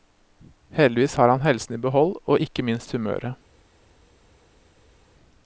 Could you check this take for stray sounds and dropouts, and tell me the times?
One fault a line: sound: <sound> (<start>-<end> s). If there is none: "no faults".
no faults